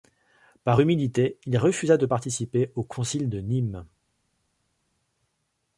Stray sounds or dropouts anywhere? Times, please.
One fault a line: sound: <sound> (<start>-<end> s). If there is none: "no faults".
no faults